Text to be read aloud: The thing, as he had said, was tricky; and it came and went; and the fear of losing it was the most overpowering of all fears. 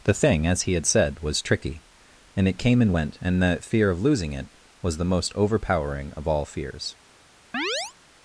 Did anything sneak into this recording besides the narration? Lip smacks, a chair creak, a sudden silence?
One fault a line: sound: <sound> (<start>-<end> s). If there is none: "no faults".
sound: chirp (7.5-7.9 s)